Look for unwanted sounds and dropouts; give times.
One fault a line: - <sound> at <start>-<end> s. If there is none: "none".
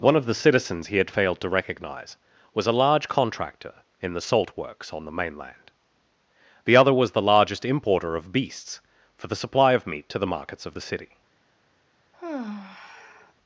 - sigh at 12.1-13.3 s